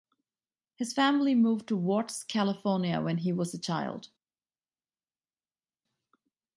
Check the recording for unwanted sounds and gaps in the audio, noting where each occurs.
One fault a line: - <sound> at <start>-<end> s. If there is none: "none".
none